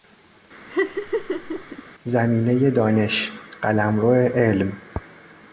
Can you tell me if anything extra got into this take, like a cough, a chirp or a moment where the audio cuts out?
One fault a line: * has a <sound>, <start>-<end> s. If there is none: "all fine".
* has a laugh, 0.7-1.8 s